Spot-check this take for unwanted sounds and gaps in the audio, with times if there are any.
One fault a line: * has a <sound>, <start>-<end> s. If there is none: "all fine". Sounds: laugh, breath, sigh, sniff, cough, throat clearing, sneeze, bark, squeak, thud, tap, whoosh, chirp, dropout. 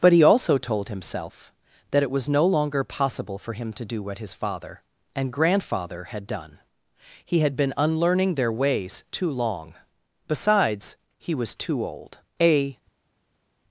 all fine